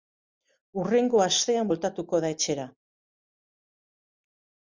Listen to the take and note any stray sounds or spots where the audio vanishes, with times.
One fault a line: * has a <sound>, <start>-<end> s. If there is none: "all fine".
all fine